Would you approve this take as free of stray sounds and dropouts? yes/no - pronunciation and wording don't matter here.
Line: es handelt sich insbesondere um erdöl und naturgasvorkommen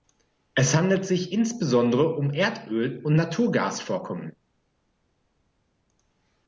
yes